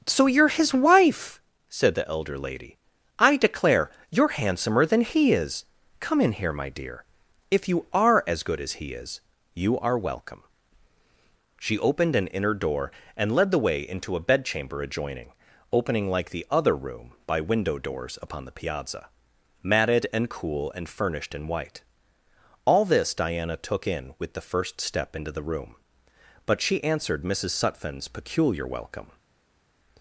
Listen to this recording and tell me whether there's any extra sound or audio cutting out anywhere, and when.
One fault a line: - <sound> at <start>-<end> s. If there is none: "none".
none